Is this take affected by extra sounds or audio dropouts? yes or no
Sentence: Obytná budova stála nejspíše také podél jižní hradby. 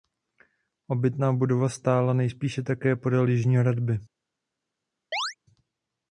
yes